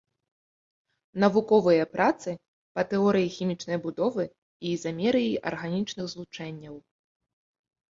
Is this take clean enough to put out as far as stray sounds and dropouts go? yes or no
yes